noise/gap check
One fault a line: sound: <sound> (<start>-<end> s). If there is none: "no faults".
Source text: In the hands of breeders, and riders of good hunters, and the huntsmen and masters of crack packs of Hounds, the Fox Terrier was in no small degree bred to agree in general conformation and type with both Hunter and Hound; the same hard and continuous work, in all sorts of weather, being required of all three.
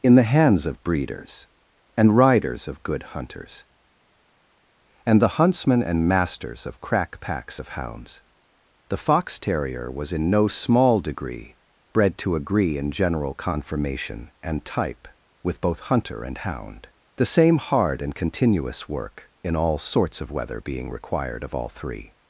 no faults